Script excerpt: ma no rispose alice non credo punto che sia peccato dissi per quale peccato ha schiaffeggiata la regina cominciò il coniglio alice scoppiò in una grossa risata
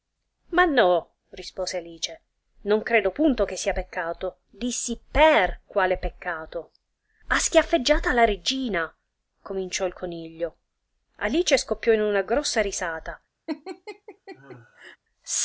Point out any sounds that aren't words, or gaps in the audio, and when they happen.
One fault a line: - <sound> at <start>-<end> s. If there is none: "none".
- laugh at 13.5-15.0 s